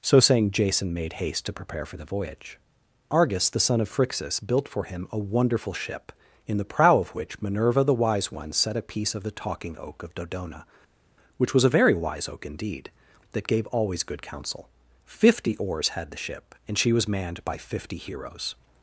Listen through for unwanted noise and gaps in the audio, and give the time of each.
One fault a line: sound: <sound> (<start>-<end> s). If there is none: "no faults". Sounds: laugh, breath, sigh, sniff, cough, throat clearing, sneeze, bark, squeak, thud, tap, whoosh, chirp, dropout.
no faults